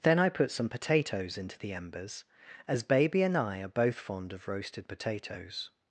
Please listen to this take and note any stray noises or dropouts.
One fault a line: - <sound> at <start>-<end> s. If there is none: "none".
none